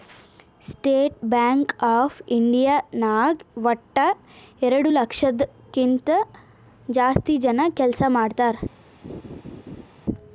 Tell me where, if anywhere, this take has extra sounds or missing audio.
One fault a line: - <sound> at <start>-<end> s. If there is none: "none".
- laugh at 9.0-9.9 s